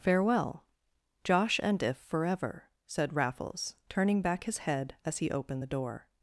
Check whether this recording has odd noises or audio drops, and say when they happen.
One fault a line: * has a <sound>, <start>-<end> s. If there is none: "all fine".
all fine